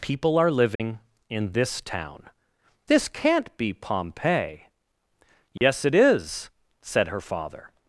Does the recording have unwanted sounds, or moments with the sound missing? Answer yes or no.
yes